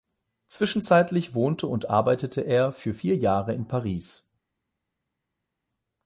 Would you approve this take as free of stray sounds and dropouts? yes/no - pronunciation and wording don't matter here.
yes